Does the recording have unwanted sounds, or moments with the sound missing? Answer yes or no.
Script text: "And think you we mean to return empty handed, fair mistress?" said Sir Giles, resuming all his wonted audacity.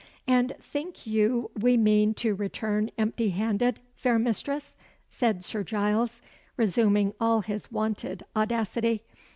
no